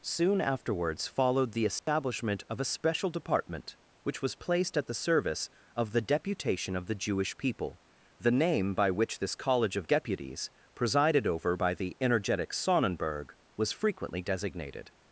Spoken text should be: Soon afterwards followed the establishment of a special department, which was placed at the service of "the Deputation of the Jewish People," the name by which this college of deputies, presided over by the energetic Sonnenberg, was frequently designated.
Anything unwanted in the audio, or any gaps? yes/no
yes